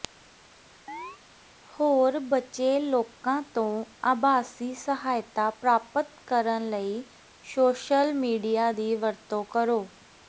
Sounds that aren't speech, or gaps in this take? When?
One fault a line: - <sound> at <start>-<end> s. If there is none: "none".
- chirp at 0.9-1.2 s